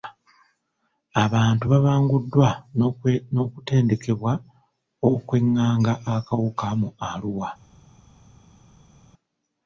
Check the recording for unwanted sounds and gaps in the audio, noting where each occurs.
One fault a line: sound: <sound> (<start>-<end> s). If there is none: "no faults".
no faults